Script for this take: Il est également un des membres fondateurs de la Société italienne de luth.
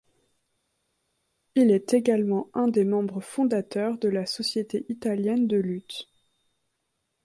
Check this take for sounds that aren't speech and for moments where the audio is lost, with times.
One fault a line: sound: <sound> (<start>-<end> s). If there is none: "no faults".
no faults